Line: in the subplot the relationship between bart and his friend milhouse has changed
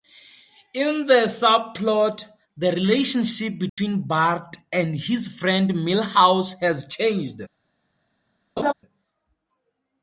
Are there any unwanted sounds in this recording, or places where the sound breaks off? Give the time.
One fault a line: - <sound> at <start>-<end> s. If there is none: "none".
- dropout at 3.7-3.8 s
- laugh at 8.6-8.7 s